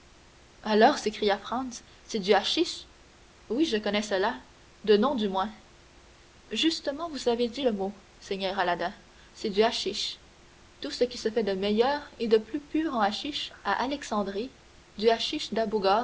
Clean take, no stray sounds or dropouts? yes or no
yes